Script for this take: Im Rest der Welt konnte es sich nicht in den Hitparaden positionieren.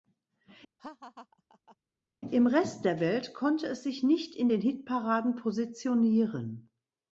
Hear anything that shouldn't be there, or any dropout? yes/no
yes